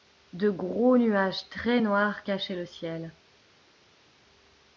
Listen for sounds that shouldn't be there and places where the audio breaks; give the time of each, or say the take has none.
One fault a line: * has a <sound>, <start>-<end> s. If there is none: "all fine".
all fine